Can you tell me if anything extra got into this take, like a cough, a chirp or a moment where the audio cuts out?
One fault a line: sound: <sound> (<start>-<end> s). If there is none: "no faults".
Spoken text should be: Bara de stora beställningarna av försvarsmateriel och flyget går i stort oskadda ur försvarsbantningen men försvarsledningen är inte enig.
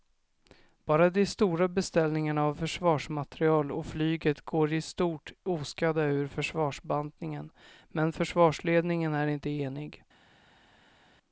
no faults